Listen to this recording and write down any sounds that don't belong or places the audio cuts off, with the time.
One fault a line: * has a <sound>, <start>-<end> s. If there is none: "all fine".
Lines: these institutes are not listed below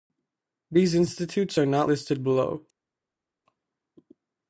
all fine